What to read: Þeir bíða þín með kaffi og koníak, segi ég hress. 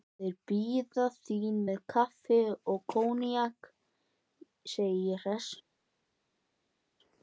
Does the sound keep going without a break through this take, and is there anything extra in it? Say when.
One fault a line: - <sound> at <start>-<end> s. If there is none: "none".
none